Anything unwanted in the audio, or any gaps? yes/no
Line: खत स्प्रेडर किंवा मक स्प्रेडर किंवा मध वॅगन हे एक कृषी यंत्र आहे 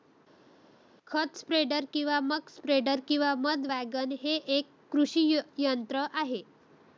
no